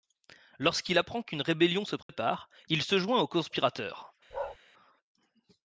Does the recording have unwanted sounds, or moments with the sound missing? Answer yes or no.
yes